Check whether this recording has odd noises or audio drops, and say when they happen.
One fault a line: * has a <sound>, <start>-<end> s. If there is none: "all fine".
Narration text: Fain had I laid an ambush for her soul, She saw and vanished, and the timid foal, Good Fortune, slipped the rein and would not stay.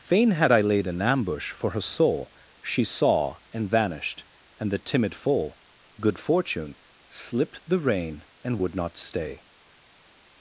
all fine